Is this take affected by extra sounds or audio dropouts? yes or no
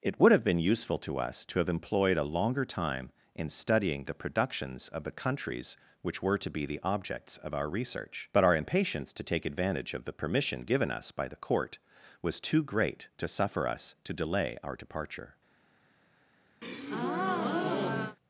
yes